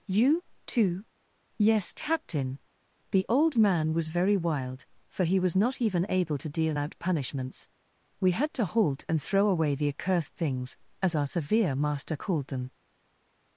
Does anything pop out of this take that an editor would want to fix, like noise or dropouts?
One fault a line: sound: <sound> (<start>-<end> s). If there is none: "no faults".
no faults